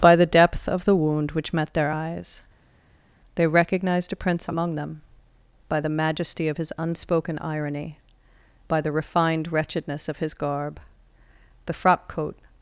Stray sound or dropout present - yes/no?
no